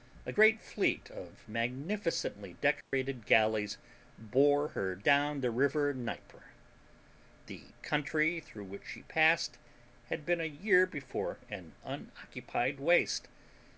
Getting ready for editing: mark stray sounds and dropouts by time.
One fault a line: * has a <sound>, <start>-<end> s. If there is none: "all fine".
* has a dropout, 2.8-2.9 s